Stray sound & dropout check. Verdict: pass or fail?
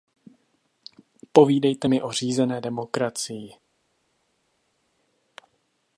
pass